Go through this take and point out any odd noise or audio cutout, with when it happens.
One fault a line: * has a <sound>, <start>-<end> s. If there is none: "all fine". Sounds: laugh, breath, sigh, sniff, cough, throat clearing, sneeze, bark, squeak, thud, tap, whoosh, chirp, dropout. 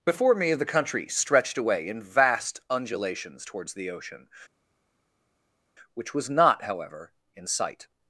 all fine